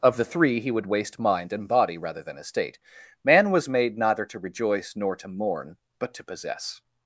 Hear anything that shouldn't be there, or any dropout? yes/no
no